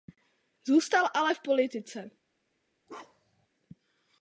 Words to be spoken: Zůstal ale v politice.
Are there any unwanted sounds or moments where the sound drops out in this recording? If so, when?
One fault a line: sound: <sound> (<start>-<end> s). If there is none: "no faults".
sound: bark (2.9-3.5 s)